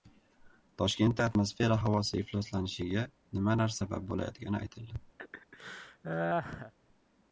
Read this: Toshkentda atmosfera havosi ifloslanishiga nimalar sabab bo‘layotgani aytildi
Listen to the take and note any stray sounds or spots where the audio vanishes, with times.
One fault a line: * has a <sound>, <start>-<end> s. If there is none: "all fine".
* has a laugh, 5.2-6.7 s